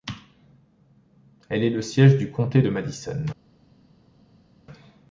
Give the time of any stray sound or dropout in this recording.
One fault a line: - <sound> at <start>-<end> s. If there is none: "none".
none